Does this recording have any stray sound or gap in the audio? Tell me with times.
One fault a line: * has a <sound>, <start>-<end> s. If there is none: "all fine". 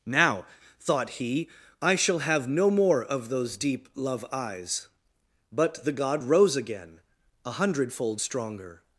all fine